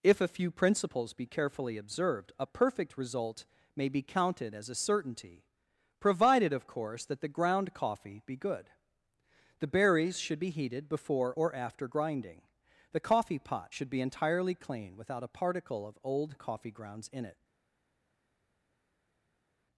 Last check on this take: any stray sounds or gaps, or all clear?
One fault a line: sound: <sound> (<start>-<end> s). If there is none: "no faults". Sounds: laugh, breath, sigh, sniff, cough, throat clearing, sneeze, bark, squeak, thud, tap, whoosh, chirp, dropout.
no faults